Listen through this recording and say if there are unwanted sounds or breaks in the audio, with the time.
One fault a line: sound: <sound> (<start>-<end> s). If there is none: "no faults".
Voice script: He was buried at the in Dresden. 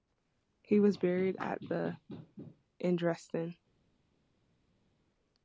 no faults